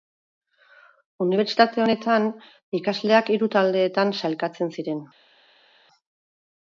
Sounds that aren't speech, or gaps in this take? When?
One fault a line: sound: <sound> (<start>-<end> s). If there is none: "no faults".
no faults